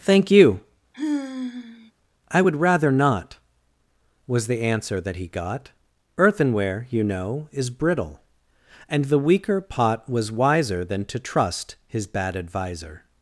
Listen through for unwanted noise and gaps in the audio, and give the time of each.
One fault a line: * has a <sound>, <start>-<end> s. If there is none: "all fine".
* has a sigh, 0.9-1.9 s